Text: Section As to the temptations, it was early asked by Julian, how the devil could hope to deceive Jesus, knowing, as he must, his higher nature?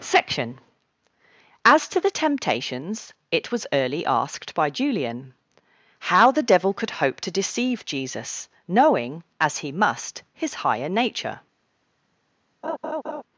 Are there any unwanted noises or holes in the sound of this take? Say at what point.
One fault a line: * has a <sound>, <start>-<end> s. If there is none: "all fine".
* has a laugh, 12.6-13.2 s